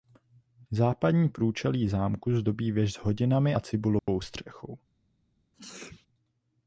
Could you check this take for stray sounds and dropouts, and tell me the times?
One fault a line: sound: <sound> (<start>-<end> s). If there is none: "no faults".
sound: dropout (4.0-4.1 s)
sound: sneeze (5.5-6.1 s)